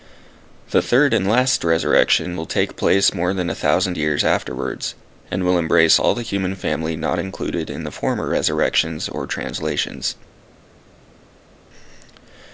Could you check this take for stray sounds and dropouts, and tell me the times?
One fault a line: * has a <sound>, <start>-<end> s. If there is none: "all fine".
all fine